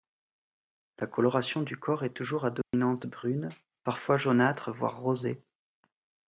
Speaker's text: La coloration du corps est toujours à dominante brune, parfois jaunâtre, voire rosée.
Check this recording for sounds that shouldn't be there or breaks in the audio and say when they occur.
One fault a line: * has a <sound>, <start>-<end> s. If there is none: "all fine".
* has a dropout, 2.6-2.7 s